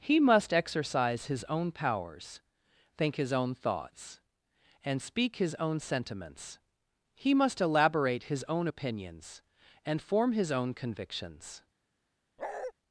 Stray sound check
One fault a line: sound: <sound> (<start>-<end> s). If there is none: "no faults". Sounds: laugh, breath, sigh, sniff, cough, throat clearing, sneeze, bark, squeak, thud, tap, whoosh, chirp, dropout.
sound: bark (12.4-12.7 s)